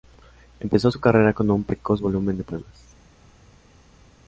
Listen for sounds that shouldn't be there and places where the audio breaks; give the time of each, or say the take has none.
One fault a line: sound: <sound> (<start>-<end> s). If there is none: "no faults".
no faults